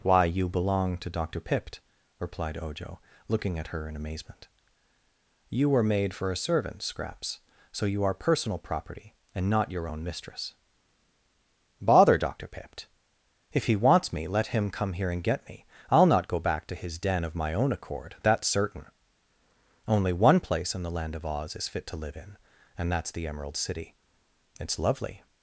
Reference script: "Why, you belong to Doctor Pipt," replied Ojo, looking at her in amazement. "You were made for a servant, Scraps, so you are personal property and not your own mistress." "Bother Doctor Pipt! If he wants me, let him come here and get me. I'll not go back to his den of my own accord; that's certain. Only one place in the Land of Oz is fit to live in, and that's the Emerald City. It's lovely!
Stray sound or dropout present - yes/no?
no